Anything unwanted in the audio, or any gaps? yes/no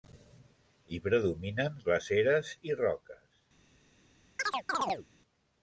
yes